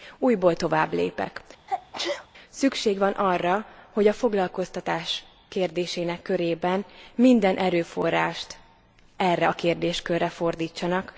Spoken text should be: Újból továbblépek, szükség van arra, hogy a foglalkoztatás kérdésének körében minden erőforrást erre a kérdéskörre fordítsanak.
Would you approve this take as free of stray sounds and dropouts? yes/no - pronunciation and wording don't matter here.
no